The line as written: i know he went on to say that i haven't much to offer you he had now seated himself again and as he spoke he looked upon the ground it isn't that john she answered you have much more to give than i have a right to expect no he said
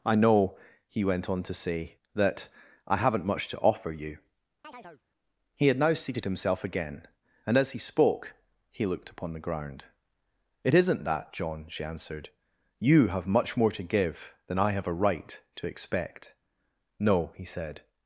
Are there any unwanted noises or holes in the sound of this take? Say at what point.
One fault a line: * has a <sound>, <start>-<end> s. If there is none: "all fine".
* has a chirp, 4.6-5.0 s